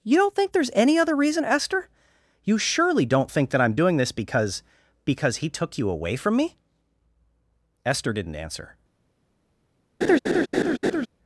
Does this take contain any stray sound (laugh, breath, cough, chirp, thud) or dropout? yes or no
yes